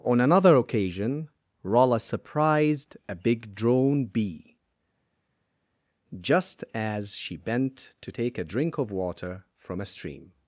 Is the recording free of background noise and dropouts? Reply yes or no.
yes